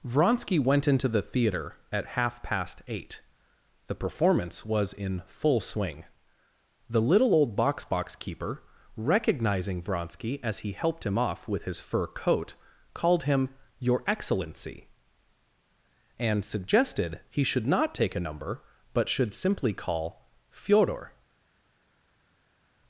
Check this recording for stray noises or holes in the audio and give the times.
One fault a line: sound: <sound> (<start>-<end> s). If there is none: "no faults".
no faults